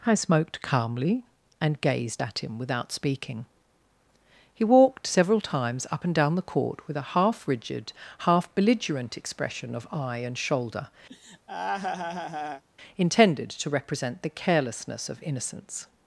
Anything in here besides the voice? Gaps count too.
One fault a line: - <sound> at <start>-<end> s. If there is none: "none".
- laugh at 11.1-12.6 s